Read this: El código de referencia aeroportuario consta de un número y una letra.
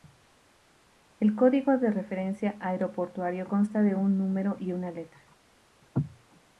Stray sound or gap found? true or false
false